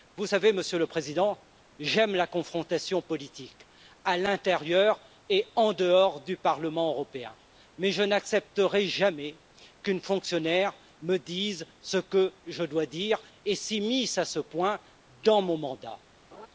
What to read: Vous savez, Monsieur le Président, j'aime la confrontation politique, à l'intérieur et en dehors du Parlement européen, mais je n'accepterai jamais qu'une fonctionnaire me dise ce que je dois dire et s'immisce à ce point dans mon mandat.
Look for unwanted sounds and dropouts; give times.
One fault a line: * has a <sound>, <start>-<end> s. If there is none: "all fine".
* has a laugh, 16.3-16.5 s